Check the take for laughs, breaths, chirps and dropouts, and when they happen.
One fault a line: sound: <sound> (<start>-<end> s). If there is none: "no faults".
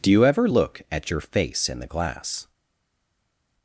no faults